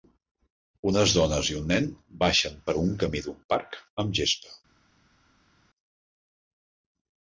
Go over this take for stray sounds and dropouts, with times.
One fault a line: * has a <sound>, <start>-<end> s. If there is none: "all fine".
all fine